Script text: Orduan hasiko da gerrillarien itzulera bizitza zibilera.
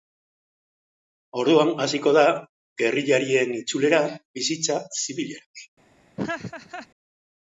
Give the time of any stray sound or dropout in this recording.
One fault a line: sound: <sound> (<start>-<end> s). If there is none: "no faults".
sound: laugh (6.2-6.9 s)